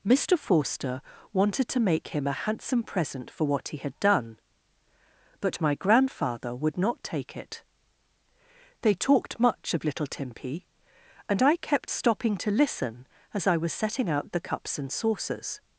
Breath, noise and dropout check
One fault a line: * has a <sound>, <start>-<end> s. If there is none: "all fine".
all fine